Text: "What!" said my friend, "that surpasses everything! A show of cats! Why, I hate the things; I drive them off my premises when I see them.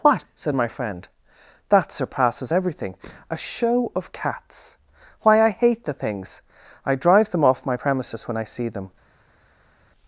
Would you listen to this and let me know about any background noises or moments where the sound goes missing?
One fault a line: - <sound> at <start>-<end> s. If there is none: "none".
none